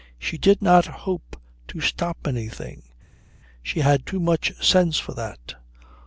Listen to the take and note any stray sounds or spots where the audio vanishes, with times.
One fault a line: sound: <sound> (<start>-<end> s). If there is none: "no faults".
no faults